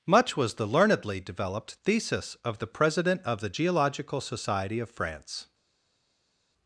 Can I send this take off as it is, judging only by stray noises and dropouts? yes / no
yes